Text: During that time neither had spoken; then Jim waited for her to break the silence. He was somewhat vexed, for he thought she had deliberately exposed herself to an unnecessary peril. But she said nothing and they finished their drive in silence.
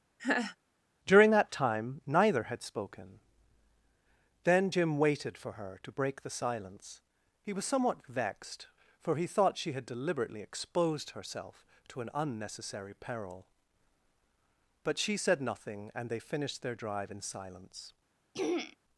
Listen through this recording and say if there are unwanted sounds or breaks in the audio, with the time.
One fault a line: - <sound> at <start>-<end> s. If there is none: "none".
- laugh at 0.2-0.6 s
- throat clearing at 18.3-18.8 s